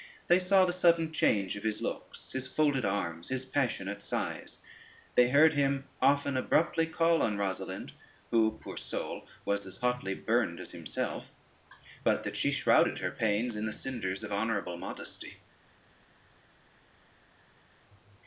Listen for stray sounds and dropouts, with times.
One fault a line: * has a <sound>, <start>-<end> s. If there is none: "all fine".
all fine